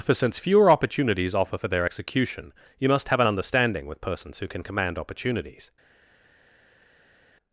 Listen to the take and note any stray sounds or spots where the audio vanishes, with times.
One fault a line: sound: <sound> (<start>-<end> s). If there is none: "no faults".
no faults